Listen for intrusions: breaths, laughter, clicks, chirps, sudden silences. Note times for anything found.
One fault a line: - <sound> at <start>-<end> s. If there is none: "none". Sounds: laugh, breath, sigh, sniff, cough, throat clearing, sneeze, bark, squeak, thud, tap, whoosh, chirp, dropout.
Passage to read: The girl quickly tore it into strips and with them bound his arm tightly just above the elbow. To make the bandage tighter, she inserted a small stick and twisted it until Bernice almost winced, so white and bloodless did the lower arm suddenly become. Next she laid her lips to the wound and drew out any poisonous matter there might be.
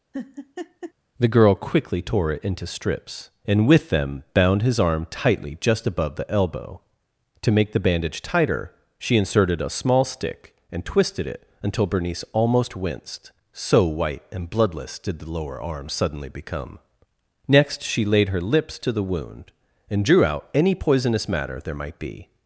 - laugh at 0.1-0.9 s